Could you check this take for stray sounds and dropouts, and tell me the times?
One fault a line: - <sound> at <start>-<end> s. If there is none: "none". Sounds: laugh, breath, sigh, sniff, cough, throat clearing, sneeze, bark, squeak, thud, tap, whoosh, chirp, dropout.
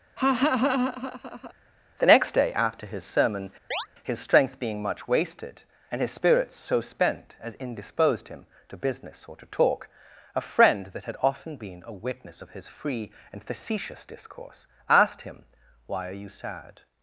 - laugh at 0.2-1.5 s
- chirp at 3.7-3.9 s